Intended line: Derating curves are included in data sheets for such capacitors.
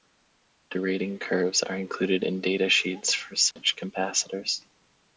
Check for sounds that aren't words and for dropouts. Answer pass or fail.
fail